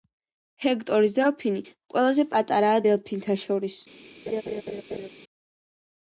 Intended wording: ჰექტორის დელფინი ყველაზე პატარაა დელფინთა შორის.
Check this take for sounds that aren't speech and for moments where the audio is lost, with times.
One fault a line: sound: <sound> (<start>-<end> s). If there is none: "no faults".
sound: laugh (4.3-5.1 s)